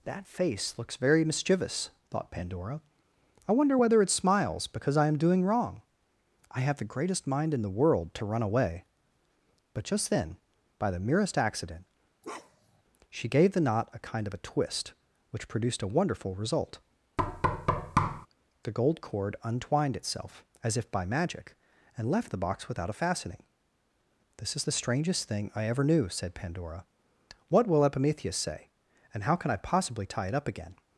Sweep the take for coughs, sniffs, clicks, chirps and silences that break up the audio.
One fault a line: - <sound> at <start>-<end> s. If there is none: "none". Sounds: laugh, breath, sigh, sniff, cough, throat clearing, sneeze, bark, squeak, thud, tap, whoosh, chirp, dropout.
- bark at 12.2-12.8 s
- thud at 17.2-18.3 s